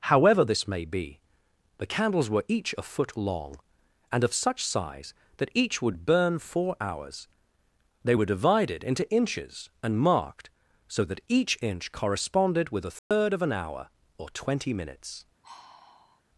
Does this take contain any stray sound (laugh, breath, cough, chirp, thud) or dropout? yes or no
yes